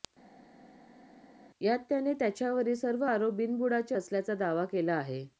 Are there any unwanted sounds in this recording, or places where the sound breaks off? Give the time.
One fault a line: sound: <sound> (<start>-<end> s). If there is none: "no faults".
no faults